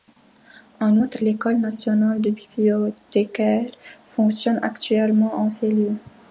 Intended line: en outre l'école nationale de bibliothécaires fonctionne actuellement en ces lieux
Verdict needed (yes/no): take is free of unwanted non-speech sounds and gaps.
yes